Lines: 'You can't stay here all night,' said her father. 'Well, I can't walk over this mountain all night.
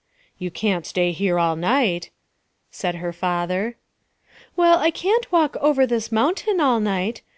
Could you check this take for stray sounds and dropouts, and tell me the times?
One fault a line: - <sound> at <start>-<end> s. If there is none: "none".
none